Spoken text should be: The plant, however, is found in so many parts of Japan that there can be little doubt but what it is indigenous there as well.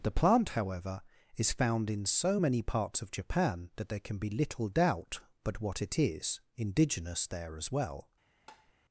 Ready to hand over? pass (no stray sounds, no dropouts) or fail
fail